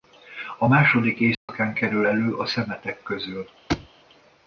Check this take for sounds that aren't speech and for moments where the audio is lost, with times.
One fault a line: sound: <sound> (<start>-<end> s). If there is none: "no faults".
sound: dropout (1.3-1.5 s)
sound: thud (3.7-3.9 s)